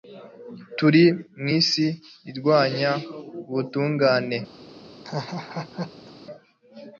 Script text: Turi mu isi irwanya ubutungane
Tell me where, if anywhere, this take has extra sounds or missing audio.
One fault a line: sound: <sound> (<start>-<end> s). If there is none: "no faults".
sound: laugh (5.0-6.1 s)